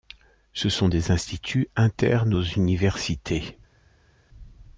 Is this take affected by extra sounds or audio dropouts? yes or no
no